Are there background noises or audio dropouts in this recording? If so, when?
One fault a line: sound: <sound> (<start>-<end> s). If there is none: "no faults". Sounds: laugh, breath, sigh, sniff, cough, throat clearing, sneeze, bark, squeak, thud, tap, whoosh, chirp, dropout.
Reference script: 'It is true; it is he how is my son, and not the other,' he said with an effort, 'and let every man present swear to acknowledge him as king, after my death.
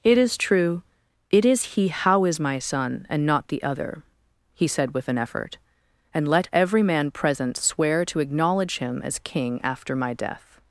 no faults